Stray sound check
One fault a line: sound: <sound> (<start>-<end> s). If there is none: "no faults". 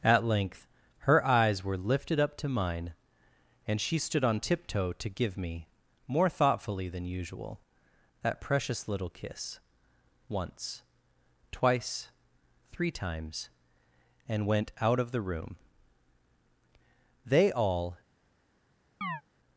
sound: chirp (19.0-19.2 s)